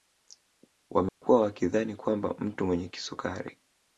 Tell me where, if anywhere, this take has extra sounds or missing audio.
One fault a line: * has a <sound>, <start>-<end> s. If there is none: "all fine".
* has a dropout, 1.1-1.2 s